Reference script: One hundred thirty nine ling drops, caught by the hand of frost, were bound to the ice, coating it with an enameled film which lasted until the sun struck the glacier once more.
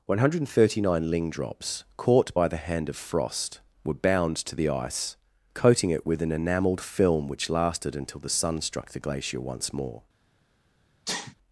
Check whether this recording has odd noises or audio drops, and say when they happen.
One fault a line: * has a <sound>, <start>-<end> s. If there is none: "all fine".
* has a sneeze, 11.1-11.4 s